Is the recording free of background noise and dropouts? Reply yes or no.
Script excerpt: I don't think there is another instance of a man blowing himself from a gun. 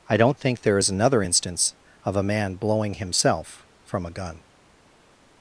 yes